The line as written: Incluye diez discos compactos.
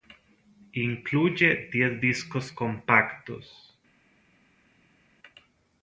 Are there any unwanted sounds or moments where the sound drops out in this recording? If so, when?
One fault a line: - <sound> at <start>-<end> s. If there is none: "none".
none